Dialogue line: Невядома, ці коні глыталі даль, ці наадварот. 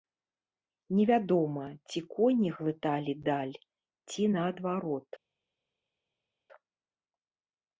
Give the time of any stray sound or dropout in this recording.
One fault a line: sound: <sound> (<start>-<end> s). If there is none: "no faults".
no faults